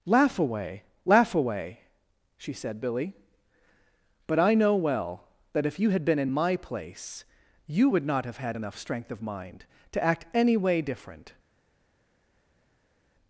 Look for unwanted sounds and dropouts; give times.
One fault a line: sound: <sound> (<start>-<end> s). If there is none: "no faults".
no faults